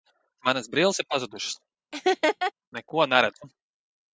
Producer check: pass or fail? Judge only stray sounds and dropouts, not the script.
fail